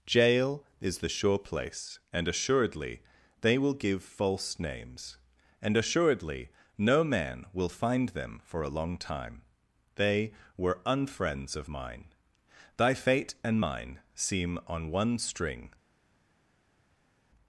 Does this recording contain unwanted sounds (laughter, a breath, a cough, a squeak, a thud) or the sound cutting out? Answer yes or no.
no